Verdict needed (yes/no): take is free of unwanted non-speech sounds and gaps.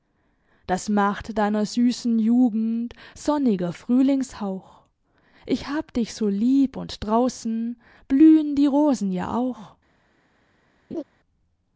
no